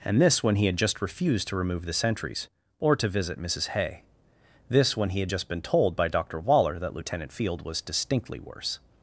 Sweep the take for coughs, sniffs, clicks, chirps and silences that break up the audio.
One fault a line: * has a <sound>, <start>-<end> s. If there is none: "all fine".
all fine